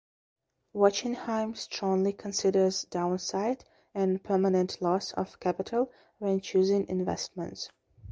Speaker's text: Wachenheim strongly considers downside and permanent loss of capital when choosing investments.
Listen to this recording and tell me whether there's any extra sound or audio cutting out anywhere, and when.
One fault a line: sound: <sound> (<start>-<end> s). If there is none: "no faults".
no faults